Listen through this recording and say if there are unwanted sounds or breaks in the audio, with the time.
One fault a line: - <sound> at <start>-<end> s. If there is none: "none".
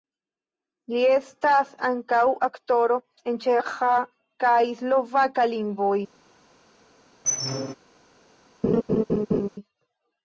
- squeak at 7.2-7.7 s
- laugh at 8.6-9.5 s